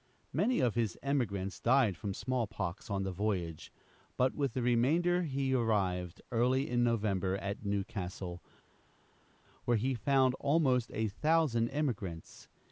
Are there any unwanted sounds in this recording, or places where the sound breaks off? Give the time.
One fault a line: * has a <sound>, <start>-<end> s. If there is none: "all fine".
all fine